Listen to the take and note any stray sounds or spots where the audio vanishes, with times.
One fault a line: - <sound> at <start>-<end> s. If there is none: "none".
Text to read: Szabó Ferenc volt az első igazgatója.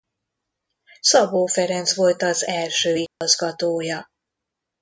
- dropout at 3.1-3.2 s